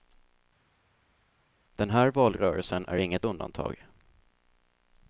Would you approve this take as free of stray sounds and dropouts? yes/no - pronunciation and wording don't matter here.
yes